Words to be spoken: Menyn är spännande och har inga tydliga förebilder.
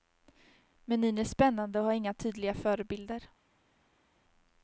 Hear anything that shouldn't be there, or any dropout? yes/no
no